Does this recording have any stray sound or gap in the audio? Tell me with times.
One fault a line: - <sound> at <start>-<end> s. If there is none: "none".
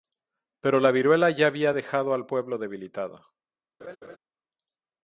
- laugh at 3.8-4.2 s